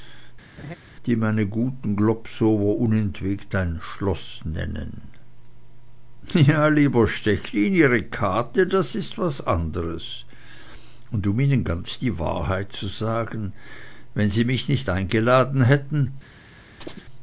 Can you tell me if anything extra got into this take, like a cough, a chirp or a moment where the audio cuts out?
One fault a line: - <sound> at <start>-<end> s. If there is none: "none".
- laugh at 0.6-0.8 s
- chirp at 16.8-17.0 s